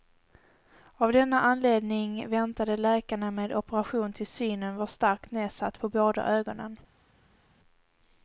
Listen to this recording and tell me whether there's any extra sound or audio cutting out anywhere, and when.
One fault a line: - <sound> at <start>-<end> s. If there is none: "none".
none